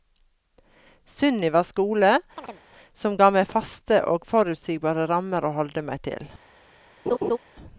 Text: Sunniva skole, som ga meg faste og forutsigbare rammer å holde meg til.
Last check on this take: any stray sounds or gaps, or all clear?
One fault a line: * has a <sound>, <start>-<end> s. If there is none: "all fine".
* has a chirp, 2.4-2.6 s
* has a laugh, 7.1-7.4 s